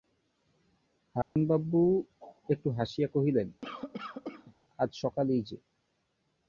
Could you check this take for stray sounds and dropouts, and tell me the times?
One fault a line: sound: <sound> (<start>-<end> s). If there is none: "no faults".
sound: dropout (1.2-1.4 s)
sound: cough (3.6-4.5 s)